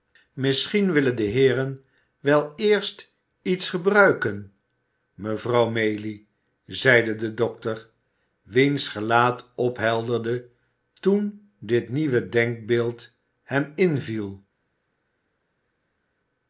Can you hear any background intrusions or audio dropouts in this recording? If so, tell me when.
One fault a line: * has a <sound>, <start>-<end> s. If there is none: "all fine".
all fine